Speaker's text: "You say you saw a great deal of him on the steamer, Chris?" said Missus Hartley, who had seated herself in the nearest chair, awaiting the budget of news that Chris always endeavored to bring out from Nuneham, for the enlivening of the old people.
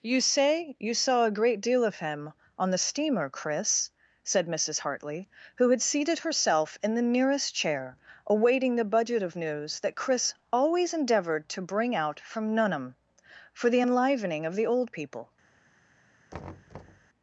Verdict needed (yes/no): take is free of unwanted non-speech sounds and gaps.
no